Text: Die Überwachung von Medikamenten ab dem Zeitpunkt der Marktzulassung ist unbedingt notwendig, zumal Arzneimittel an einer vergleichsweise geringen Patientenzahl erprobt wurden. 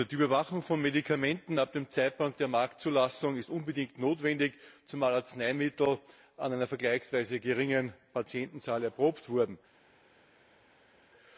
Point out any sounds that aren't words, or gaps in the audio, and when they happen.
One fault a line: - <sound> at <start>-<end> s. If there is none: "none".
none